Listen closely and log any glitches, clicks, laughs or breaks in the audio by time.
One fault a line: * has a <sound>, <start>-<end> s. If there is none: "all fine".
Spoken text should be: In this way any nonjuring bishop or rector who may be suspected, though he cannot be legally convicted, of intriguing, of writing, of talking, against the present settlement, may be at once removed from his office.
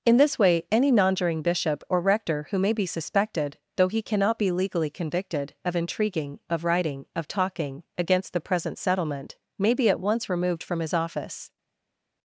all fine